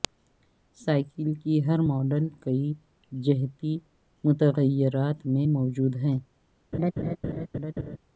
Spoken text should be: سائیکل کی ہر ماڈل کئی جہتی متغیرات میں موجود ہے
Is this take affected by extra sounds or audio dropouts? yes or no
yes